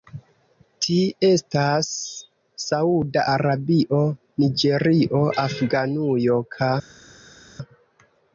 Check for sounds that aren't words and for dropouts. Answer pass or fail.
pass